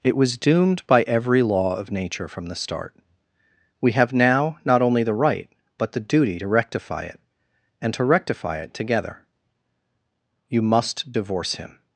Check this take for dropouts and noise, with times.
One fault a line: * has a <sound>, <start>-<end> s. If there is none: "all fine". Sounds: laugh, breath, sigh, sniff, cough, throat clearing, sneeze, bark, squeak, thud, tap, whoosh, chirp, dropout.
all fine